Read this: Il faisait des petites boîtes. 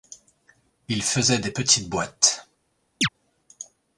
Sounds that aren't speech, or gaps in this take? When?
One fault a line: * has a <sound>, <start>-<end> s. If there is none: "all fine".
* has a chirp, 3.0-3.1 s